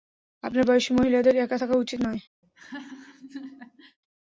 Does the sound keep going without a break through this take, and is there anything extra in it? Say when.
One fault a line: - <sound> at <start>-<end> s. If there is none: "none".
- laugh at 2.4-4.0 s